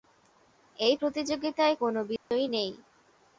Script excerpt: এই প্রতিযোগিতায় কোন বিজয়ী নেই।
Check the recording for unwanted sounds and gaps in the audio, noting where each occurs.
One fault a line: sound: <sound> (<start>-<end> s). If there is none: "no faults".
sound: dropout (2.2-2.3 s)